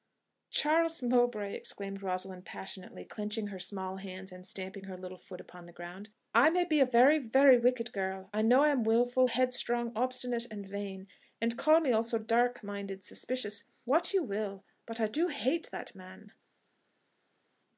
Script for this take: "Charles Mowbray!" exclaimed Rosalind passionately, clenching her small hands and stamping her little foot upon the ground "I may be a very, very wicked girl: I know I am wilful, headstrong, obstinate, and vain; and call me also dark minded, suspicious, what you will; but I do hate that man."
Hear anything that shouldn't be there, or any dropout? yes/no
no